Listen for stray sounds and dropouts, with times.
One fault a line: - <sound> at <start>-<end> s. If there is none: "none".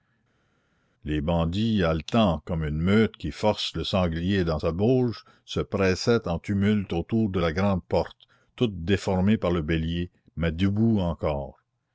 none